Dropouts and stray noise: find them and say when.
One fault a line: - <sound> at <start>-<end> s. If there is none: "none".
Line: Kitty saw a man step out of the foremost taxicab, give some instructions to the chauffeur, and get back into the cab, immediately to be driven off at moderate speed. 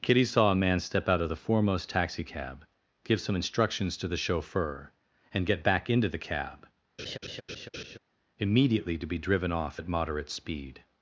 - laugh at 7.0-8.0 s